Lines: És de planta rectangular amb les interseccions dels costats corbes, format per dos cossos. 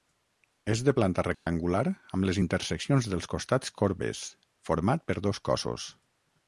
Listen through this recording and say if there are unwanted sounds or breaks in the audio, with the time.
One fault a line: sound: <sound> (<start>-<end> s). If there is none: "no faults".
sound: dropout (1.3-1.5 s)